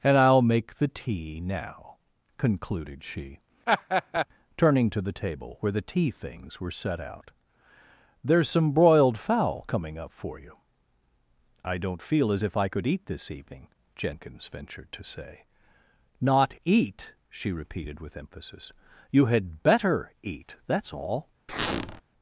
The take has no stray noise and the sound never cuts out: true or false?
false